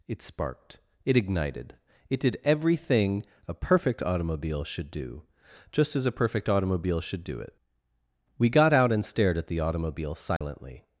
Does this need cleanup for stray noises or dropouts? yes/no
yes